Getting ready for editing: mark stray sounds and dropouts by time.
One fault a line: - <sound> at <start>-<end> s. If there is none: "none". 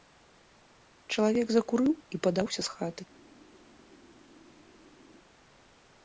none